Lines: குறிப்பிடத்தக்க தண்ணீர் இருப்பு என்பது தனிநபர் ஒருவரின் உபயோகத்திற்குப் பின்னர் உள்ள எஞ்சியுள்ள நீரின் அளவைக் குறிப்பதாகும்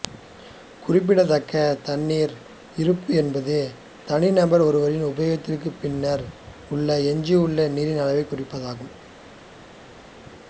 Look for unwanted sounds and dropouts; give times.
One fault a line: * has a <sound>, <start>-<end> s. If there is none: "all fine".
all fine